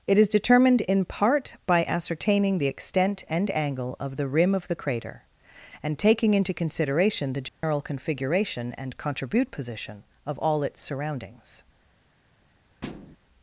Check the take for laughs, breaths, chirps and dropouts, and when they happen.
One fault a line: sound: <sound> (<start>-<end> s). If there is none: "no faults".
sound: dropout (7.5-7.6 s)
sound: thud (12.8-13.2 s)